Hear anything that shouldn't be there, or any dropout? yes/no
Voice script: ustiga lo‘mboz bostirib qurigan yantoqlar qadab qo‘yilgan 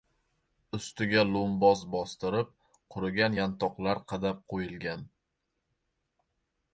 no